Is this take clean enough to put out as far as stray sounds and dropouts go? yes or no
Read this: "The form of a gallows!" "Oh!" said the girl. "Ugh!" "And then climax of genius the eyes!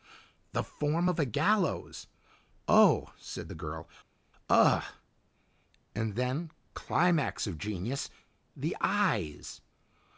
yes